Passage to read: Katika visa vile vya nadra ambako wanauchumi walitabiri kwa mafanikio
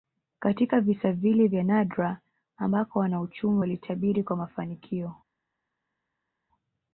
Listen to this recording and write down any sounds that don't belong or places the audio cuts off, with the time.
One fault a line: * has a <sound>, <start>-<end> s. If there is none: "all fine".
all fine